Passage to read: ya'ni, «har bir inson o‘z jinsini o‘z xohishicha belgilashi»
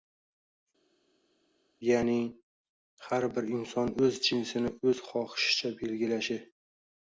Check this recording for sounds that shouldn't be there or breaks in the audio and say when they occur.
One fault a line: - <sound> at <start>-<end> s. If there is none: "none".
none